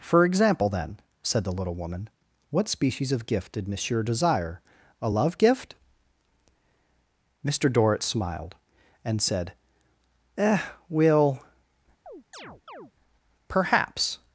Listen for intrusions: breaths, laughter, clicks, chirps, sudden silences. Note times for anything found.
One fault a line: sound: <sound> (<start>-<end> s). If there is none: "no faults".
sound: chirp (12.1-12.9 s)